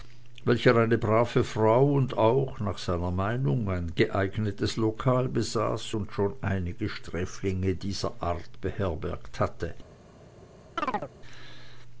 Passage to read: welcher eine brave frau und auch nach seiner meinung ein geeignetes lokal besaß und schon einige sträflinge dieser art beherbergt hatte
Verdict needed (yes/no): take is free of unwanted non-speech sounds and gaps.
no